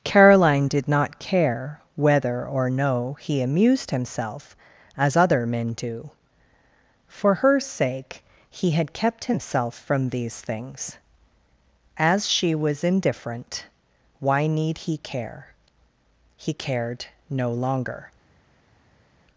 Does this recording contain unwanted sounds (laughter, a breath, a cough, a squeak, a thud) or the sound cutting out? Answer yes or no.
no